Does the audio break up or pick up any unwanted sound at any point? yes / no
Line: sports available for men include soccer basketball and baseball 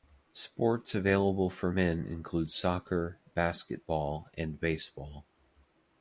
no